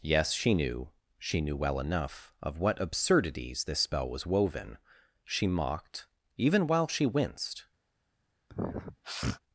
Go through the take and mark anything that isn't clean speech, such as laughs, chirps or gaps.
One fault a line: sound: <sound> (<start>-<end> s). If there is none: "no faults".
sound: sniff (8.5-9.4 s)